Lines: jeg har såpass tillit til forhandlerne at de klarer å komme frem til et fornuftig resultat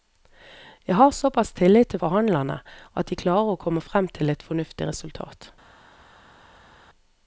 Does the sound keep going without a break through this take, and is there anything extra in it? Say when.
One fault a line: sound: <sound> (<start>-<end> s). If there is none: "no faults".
no faults